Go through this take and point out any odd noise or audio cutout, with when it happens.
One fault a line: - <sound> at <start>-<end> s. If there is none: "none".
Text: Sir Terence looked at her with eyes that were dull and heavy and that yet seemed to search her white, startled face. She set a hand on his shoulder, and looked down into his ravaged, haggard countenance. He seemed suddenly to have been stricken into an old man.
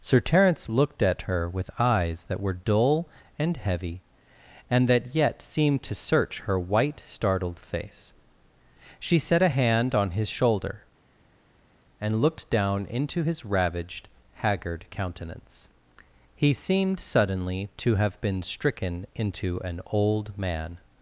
none